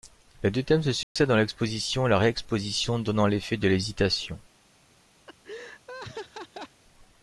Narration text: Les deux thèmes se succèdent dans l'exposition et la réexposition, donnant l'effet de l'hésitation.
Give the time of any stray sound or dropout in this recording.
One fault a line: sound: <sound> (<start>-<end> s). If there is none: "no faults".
sound: dropout (1.0-1.2 s)
sound: laugh (5.3-6.8 s)